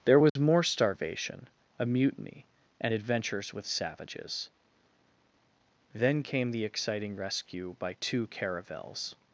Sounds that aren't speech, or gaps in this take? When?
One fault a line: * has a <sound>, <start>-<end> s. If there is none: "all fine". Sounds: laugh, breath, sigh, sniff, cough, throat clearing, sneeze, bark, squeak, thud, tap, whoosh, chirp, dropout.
* has a dropout, 0.3-0.4 s